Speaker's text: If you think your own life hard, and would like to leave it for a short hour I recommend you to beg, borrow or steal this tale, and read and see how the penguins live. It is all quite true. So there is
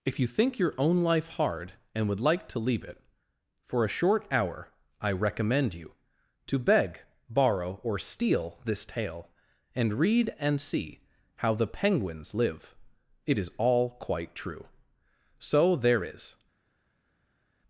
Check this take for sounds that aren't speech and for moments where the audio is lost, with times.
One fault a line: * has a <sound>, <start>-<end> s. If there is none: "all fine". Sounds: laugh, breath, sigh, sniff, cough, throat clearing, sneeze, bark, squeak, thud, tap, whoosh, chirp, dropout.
all fine